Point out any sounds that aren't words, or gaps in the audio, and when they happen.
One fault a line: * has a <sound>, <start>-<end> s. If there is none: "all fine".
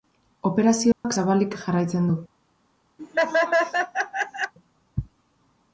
* has a dropout, 0.9-1.0 s
* has a laugh, 3.0-4.5 s